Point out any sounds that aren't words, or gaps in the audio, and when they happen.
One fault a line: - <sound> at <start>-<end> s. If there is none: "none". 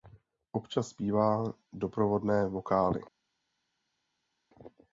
none